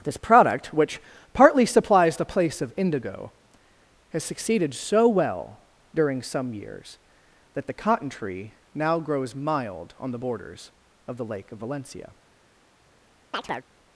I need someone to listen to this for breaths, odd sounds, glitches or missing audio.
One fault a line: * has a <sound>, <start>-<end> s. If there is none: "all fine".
* has a chirp, 13.3-13.7 s